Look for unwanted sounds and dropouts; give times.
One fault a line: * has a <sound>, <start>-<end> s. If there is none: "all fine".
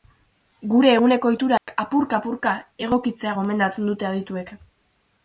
* has a dropout, 1.6-1.7 s